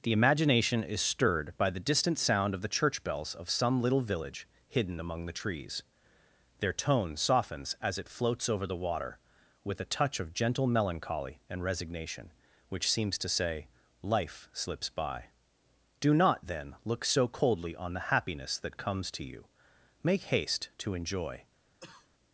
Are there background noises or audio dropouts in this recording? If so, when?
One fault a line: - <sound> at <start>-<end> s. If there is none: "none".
- cough at 21.8-22.1 s